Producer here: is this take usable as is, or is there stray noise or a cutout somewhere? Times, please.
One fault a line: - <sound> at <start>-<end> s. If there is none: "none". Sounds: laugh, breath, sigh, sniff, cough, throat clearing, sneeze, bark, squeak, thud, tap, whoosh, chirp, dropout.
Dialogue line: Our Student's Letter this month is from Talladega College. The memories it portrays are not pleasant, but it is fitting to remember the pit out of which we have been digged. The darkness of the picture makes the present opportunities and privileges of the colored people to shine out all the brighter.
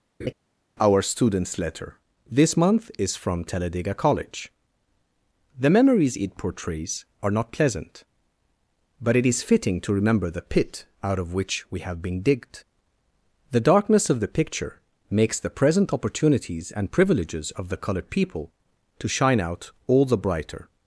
- laugh at 0.2-0.3 s